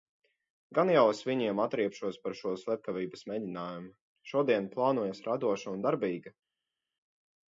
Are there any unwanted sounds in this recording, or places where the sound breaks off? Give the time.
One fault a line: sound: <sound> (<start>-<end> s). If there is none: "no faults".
no faults